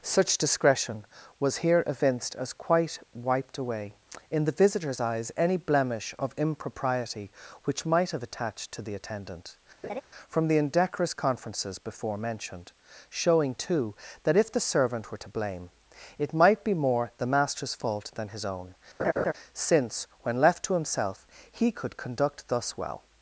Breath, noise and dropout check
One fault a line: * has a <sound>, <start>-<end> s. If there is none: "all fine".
* has a laugh, 9.8-10.0 s
* has a laugh, 19.0-19.3 s